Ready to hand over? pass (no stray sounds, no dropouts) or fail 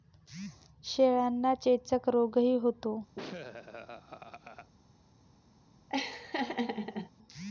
fail